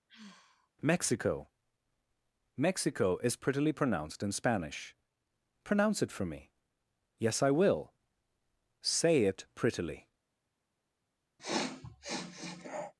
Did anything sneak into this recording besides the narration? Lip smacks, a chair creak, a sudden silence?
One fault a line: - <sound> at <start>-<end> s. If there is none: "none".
- sigh at 0.1-0.7 s
- sniff at 11.4-12.9 s